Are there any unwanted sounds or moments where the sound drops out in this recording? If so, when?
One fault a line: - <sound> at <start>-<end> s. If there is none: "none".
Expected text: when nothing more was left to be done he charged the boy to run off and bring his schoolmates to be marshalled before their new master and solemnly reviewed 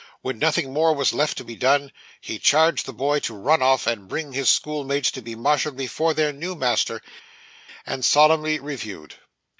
none